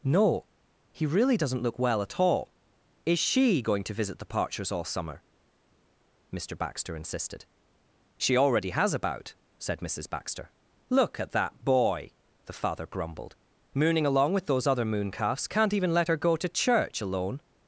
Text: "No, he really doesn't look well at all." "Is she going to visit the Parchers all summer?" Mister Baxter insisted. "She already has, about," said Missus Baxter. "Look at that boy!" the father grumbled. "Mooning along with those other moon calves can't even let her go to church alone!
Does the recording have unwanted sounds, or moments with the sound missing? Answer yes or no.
no